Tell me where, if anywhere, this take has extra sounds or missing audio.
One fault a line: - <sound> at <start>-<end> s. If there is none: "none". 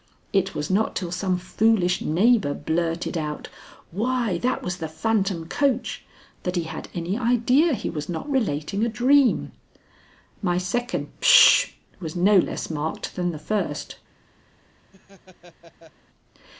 - laugh at 14.9-15.9 s